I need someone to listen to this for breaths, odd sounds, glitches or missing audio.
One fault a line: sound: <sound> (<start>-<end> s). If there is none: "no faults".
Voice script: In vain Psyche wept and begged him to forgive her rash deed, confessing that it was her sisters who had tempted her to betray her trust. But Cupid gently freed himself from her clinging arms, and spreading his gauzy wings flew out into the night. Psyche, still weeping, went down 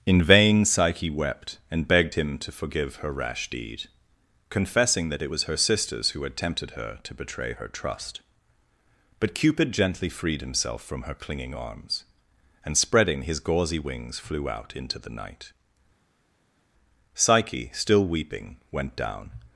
no faults